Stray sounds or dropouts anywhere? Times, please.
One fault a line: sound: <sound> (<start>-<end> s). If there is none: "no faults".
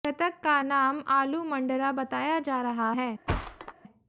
sound: thud (3.3-3.7 s)